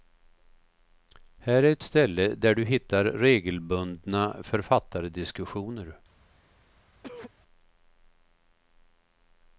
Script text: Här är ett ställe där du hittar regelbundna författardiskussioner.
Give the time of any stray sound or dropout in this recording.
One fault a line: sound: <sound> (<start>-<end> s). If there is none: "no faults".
sound: cough (7.0-7.3 s)